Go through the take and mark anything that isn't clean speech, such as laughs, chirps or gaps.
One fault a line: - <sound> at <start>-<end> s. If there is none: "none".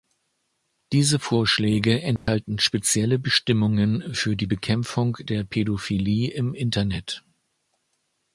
- dropout at 2.2-2.3 s